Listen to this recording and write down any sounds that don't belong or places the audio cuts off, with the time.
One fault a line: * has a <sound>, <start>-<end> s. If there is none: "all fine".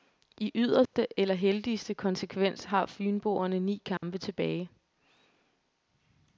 * has a dropout, 0.9-0.9 s
* has a dropout, 4.0-4.0 s